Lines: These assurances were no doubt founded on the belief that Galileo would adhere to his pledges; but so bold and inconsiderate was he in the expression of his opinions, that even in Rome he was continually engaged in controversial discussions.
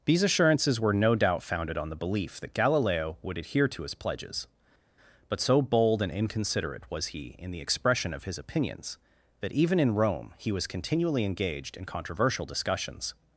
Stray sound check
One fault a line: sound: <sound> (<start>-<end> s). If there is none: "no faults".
no faults